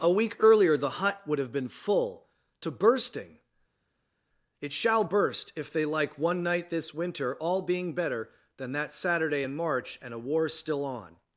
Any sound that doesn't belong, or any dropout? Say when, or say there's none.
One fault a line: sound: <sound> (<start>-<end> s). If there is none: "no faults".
no faults